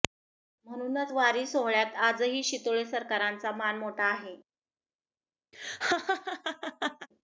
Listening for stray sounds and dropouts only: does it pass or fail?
fail